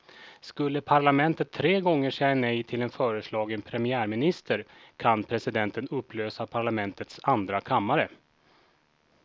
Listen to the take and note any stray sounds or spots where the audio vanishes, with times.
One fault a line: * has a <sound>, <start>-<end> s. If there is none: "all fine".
all fine